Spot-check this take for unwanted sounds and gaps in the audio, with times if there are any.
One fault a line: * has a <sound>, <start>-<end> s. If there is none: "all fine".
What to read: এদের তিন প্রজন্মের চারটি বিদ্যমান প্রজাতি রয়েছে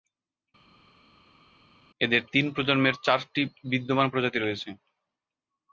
all fine